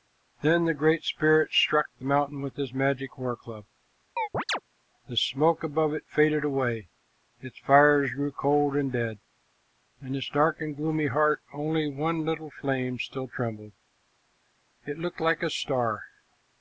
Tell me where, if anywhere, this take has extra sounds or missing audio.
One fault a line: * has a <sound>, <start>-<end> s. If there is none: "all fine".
* has a chirp, 4.2-4.6 s